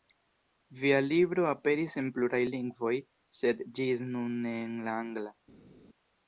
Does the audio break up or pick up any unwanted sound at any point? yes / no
no